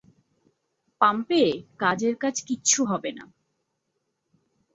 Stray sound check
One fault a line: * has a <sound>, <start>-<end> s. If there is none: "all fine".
all fine